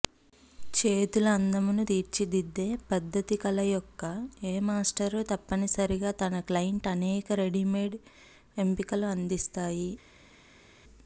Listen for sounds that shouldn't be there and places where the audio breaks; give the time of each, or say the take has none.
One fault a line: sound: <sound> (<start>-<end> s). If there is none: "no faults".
no faults